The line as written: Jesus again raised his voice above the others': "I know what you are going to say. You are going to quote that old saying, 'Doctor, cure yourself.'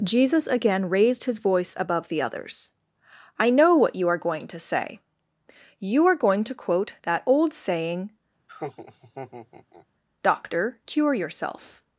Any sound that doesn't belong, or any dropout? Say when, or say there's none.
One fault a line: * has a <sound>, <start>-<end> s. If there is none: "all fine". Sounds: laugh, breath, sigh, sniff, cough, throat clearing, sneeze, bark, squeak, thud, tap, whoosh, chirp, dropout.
* has a laugh, 8.5-9.9 s